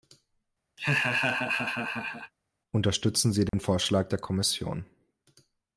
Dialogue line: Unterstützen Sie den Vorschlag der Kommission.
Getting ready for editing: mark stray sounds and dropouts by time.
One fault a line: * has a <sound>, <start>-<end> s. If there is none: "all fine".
* has a laugh, 0.8-2.3 s
* has a dropout, 3.5-3.5 s